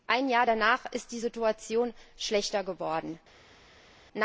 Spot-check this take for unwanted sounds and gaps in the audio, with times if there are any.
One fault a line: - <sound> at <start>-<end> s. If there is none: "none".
none